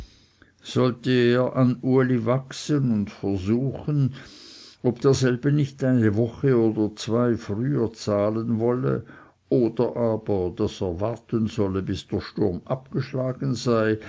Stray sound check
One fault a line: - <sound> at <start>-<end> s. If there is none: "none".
none